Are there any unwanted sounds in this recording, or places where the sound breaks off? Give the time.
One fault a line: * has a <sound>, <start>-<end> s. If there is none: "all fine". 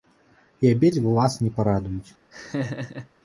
* has a laugh, 2.3-3.1 s